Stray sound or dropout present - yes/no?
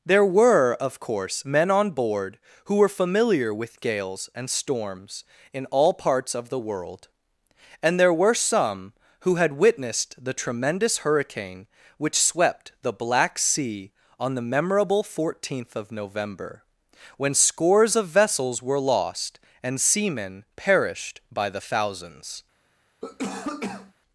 yes